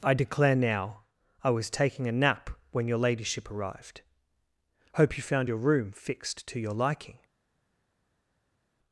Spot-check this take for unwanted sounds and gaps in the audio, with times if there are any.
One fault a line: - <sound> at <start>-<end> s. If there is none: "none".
none